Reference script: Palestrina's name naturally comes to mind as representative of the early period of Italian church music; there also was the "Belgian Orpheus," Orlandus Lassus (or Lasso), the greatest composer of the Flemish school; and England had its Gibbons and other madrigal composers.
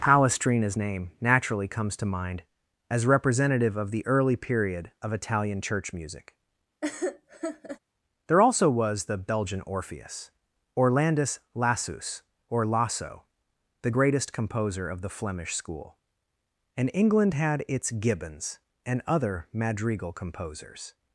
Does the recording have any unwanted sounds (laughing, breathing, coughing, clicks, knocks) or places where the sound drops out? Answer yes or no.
yes